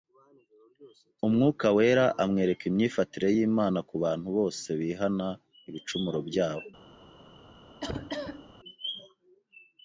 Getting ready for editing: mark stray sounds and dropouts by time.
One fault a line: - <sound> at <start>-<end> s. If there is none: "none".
- cough at 7.8-8.5 s